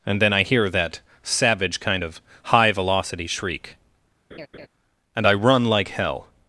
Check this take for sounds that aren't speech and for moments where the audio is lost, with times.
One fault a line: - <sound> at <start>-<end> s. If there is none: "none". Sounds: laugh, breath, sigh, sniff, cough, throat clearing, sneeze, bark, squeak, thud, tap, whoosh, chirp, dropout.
- laugh at 4.3-4.7 s